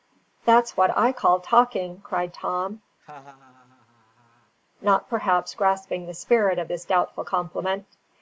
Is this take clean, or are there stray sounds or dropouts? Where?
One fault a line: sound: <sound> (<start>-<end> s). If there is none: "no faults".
sound: laugh (3.0-4.5 s)